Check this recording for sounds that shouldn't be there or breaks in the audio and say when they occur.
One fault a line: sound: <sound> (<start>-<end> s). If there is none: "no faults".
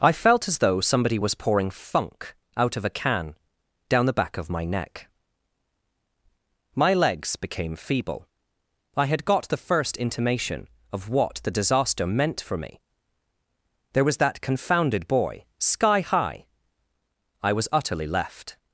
no faults